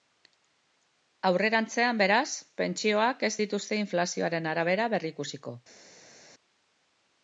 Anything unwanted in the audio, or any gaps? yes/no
no